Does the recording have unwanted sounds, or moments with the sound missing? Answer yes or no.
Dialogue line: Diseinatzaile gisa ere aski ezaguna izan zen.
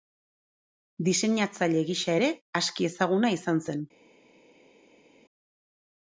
no